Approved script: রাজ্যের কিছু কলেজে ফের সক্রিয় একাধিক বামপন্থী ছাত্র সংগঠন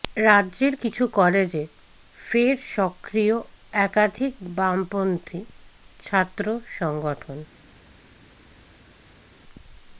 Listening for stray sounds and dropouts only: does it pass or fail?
pass